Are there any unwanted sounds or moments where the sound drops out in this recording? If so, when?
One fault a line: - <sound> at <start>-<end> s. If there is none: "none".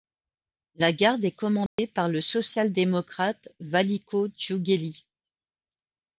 - dropout at 1.7-1.8 s